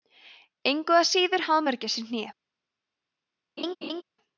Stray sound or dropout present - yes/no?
yes